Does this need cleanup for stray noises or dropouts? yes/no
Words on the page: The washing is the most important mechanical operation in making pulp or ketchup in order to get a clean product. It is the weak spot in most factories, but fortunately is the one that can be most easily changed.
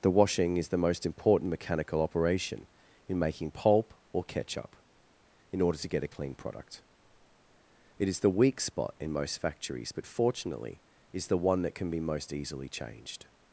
no